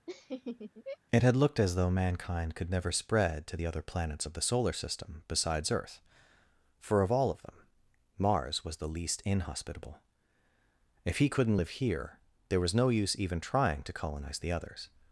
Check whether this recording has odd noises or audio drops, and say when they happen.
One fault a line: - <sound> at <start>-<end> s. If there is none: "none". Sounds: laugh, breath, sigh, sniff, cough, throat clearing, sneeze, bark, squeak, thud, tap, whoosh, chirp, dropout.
- laugh at 0.1-1.0 s